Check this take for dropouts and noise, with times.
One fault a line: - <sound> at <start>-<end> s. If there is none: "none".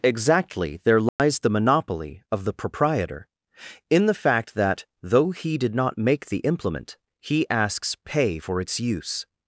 - dropout at 1.1-1.2 s